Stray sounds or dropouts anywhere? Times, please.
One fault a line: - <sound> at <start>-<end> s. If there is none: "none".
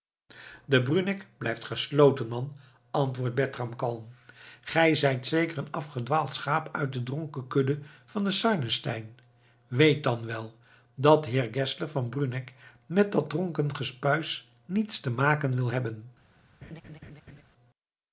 - laugh at 16.6-17.4 s